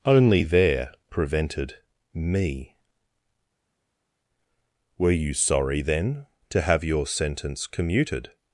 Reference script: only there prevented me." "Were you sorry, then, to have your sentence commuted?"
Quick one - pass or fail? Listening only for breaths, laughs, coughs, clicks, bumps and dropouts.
pass